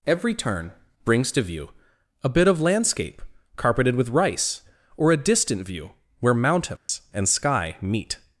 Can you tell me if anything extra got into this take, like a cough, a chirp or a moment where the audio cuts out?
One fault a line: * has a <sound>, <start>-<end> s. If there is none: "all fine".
* has a dropout, 6.8-6.9 s